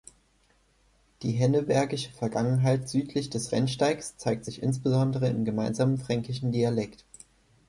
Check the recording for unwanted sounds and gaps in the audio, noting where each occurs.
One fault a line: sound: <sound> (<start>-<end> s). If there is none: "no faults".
no faults